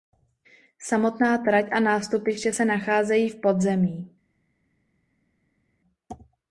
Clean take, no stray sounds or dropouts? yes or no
yes